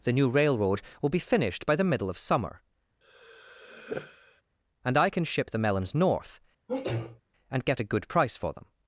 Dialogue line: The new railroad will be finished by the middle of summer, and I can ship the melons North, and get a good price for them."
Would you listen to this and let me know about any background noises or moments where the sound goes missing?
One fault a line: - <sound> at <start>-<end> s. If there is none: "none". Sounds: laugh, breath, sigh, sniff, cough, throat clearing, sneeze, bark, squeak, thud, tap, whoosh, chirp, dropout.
- sigh at 3.0-4.4 s
- sneeze at 6.7-7.2 s